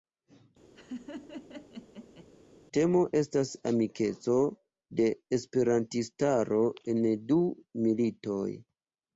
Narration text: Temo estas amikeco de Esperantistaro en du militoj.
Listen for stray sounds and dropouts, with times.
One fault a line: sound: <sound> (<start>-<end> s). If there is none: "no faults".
sound: laugh (0.8-2.3 s)